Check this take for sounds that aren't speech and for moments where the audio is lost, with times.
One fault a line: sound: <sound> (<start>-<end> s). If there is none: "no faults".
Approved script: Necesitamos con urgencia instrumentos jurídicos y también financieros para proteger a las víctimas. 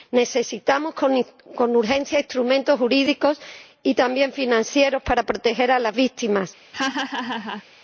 sound: laugh (6.7-7.6 s)